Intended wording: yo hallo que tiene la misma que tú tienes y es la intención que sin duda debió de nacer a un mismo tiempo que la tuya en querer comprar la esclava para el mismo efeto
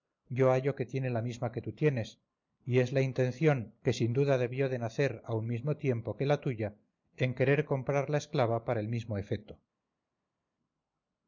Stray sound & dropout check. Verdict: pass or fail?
pass